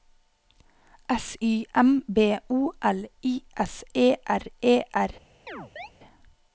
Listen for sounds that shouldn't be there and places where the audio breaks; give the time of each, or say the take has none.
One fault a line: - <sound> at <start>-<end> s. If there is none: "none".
- chirp at 5.5-5.9 s